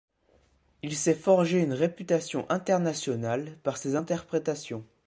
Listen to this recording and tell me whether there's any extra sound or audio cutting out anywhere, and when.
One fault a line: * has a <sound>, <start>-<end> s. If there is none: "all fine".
all fine